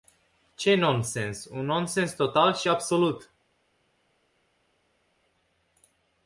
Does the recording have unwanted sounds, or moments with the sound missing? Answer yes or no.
no